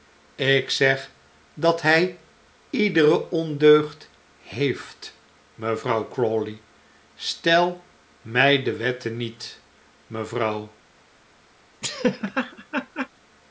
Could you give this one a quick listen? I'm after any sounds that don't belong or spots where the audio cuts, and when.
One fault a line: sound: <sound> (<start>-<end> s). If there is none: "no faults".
sound: laugh (11.8-13.1 s)